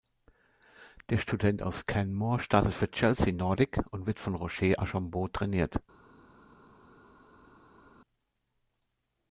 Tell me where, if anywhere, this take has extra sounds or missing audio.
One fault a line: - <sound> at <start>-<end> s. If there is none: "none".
none